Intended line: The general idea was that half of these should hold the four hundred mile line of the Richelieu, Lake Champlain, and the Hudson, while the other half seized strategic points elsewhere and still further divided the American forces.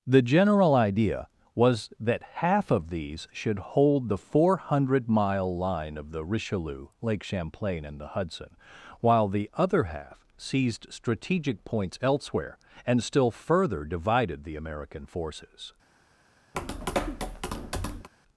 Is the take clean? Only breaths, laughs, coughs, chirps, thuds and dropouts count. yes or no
no